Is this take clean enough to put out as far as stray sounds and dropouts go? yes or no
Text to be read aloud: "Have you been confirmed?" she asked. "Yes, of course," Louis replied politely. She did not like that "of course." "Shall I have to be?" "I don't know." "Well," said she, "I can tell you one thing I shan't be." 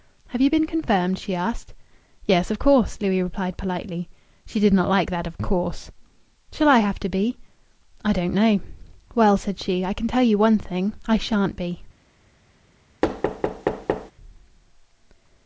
no